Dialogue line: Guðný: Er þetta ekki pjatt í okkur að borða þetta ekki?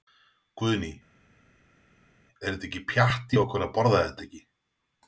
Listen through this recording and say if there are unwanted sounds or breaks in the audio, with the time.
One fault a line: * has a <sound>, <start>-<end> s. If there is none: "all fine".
all fine